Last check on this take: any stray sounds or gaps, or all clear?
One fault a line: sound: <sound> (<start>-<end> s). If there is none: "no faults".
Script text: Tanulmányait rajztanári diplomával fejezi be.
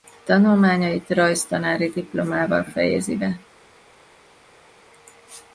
no faults